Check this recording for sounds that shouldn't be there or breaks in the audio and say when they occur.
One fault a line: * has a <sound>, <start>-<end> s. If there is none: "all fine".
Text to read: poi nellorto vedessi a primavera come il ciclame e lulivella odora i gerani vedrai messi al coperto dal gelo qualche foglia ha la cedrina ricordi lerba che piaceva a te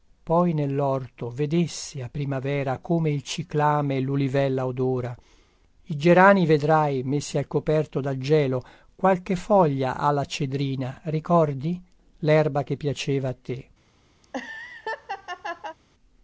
* has a laugh, 14.2-15.8 s